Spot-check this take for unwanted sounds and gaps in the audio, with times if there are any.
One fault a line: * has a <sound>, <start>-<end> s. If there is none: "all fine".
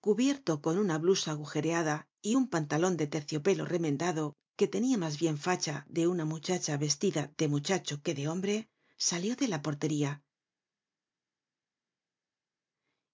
all fine